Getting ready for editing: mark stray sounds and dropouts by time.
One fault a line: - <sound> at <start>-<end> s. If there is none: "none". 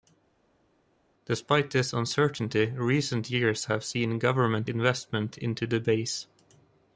none